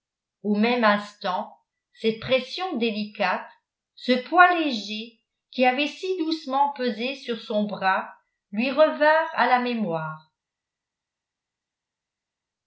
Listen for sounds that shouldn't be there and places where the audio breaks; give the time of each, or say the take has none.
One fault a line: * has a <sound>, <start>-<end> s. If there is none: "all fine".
all fine